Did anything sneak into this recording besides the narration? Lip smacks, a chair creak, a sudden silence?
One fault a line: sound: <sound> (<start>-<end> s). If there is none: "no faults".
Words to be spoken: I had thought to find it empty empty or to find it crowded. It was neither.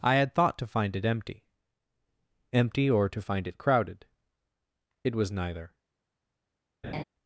sound: laugh (6.8-7.0 s)